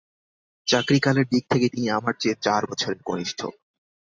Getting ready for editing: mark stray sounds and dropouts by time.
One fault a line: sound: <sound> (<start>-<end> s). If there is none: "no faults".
no faults